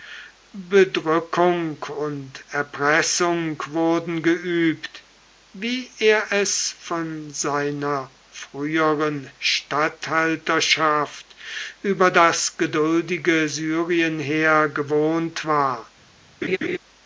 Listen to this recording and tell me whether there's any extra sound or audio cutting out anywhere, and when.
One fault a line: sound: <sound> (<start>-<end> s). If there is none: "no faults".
sound: laugh (16.4-16.8 s)